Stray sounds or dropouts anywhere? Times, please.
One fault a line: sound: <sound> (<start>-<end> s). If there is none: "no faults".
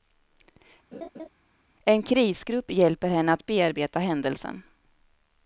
sound: laugh (0.9-1.3 s)